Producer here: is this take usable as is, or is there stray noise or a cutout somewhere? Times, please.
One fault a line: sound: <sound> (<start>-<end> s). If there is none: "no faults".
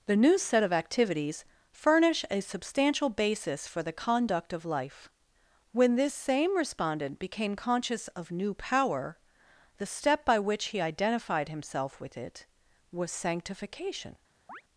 sound: chirp (14.5-14.6 s)